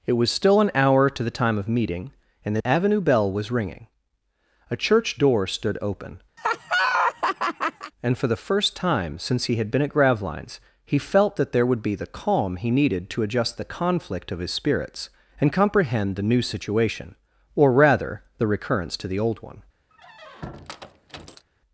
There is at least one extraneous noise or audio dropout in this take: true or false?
true